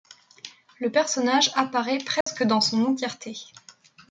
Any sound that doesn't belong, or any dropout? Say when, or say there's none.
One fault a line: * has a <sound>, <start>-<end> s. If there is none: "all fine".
* has a dropout, 2.2-2.3 s